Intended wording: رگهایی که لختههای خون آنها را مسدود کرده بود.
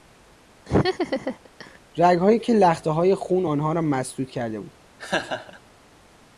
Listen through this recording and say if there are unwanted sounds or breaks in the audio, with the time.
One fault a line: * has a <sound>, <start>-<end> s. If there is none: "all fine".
* has a laugh, 0.7-1.8 s
* has a laugh, 5.0-5.6 s